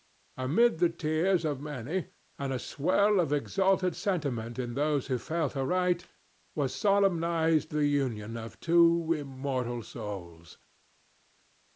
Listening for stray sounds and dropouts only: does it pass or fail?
pass